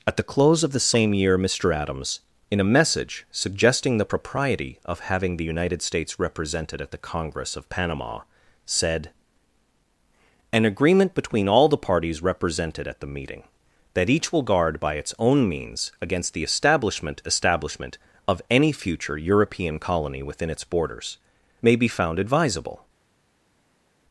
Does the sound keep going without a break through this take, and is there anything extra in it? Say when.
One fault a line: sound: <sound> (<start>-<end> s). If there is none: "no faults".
no faults